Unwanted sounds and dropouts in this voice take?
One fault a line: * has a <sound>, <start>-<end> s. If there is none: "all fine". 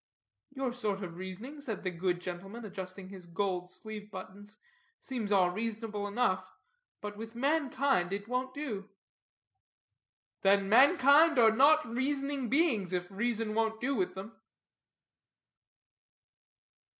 all fine